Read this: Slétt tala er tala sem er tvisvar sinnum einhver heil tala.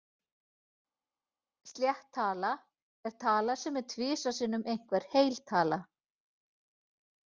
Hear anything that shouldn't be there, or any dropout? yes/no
no